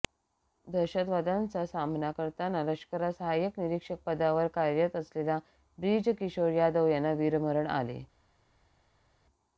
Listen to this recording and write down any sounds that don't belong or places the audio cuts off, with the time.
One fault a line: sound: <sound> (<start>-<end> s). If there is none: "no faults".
no faults